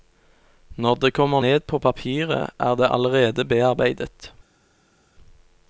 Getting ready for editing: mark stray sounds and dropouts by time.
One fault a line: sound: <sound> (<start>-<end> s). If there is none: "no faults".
no faults